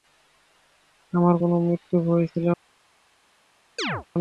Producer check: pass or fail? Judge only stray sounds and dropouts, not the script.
fail